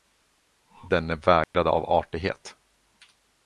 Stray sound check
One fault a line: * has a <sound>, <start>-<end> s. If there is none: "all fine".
* has a dropout, 1.4-1.5 s